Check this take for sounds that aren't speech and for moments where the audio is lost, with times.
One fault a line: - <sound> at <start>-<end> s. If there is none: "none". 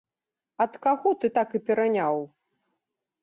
none